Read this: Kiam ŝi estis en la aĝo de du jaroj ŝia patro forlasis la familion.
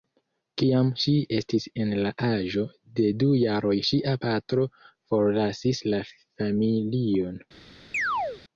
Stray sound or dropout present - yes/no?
yes